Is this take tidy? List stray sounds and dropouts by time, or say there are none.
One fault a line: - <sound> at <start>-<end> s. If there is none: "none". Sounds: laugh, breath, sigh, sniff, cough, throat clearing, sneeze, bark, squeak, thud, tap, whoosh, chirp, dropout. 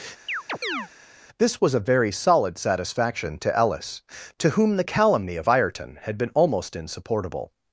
- chirp at 0.3-0.9 s